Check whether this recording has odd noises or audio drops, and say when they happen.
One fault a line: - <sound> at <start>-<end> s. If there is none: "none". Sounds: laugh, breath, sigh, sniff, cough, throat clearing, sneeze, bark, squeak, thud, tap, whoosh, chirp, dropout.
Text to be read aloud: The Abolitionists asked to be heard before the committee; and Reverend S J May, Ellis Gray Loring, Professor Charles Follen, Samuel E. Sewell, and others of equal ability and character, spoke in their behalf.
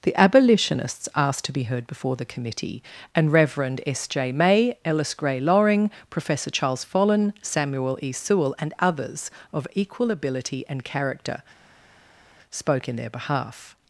none